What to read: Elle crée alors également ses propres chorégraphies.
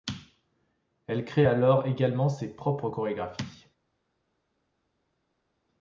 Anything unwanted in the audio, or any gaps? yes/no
no